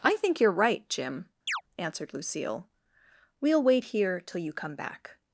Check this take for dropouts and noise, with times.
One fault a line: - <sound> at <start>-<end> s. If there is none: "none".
- chirp at 1.5-1.6 s